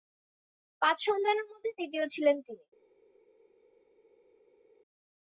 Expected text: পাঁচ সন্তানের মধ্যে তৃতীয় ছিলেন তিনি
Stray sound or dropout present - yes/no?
no